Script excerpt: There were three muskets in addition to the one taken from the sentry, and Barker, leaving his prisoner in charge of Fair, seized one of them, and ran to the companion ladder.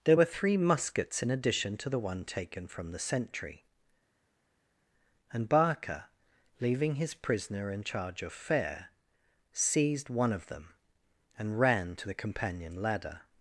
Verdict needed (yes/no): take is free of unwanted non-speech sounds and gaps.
yes